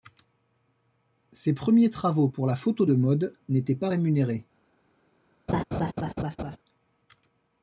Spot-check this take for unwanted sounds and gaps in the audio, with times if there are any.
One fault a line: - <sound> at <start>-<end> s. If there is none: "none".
- laugh at 5.5-6.6 s